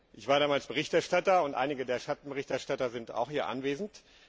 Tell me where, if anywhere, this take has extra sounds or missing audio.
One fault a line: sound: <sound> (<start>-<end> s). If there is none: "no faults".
no faults